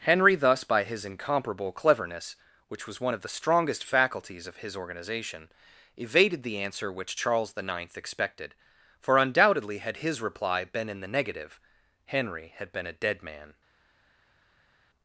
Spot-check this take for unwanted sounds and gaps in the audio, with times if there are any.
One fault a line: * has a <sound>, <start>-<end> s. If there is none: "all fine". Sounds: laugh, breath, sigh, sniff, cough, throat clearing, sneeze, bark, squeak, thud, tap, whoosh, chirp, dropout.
all fine